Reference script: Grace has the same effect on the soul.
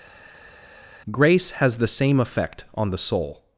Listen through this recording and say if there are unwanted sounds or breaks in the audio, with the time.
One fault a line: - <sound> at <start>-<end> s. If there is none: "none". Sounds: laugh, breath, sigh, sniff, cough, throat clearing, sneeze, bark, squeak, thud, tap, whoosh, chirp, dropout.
none